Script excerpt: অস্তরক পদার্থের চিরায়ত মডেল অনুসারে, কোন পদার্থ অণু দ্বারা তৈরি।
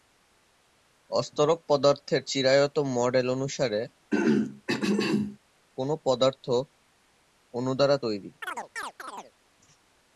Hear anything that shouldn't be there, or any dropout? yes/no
yes